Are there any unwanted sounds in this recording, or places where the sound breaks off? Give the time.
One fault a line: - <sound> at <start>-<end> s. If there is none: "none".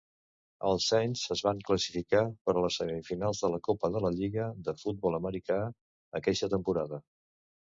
none